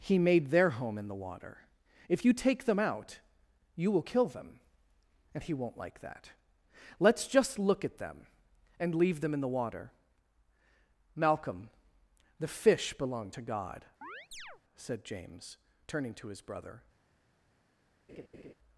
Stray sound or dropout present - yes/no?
yes